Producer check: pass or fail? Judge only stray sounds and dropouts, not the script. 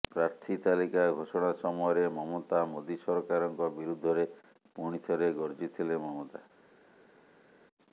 pass